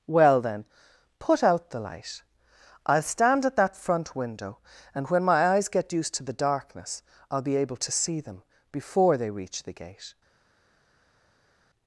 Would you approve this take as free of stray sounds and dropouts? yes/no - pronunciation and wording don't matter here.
yes